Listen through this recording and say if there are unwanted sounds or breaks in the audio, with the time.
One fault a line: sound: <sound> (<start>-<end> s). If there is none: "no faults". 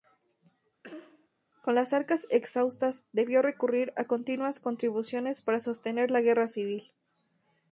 sound: cough (0.8-1.3 s)